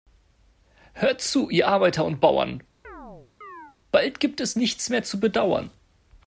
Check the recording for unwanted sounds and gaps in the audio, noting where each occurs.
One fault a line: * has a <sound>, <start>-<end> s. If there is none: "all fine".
* has a chirp, 2.8-3.8 s